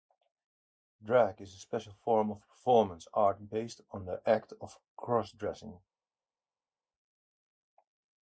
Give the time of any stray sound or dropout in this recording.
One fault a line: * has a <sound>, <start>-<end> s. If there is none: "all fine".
all fine